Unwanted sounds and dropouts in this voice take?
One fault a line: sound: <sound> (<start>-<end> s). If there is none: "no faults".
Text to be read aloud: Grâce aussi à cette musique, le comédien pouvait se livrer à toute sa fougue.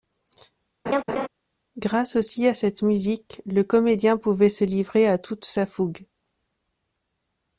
sound: laugh (0.9-1.3 s)